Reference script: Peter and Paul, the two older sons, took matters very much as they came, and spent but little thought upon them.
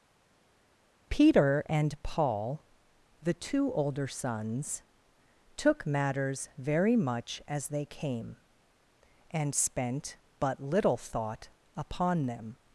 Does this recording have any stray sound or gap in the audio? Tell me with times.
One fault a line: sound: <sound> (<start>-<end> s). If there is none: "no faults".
no faults